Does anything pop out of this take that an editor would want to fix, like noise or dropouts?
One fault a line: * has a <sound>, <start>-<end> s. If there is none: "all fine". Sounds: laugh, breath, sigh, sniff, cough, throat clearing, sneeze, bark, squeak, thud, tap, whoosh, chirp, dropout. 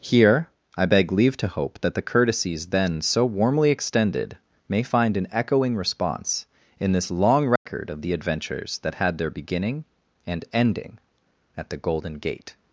* has a dropout, 7.6-7.7 s